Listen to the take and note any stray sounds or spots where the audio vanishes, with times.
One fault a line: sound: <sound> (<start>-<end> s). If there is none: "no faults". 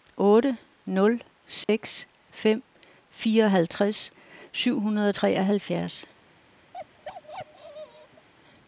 sound: dropout (1.6-1.7 s)
sound: bark (6.7-8.3 s)